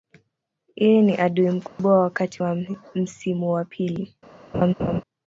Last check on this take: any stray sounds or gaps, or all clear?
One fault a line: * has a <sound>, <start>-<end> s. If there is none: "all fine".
* has a dropout, 1.7-1.8 s
* has a laugh, 4.5-5.0 s